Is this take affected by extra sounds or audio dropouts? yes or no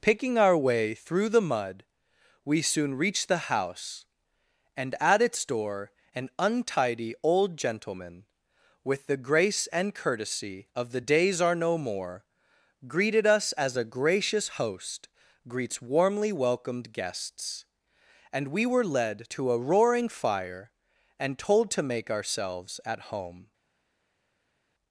no